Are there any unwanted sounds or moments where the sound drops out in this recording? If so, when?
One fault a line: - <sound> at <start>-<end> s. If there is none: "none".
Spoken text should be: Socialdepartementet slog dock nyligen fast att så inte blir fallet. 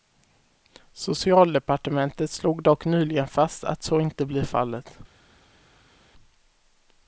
none